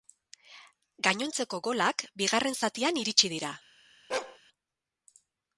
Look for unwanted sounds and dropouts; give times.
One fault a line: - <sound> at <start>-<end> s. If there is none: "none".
- bark at 4.1-4.4 s